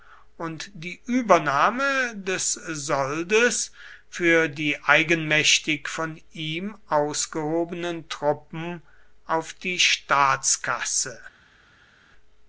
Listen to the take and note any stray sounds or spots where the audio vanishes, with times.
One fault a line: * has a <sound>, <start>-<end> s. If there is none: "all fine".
all fine